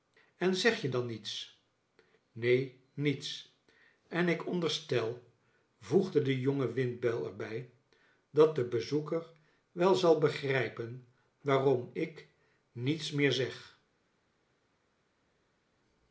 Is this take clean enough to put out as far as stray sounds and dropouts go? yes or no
yes